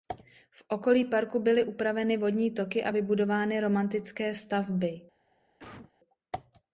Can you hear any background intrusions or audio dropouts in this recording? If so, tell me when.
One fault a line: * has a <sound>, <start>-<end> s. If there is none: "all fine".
* has a cough, 5.6-5.9 s